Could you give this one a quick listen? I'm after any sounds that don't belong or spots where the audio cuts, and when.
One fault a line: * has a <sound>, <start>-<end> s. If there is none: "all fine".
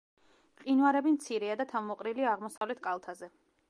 * has a dropout, 2.6-2.6 s